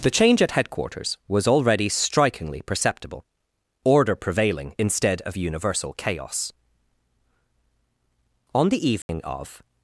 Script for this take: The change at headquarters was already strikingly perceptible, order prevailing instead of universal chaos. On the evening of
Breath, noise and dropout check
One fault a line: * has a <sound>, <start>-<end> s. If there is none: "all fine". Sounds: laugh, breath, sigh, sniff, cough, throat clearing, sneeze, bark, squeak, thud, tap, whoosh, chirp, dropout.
* has a dropout, 9.0-9.1 s